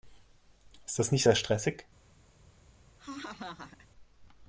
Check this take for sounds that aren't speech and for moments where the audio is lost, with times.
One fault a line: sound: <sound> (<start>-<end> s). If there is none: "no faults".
sound: laugh (3.0-3.9 s)